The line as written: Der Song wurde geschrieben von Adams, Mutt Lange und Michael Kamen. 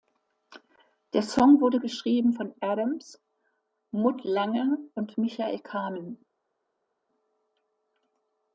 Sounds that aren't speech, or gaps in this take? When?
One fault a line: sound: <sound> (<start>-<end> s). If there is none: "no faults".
no faults